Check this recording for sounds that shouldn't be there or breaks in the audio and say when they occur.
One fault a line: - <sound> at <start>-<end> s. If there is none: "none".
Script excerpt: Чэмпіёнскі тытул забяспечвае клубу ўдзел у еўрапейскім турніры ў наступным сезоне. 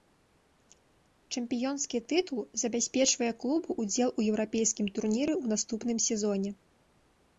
none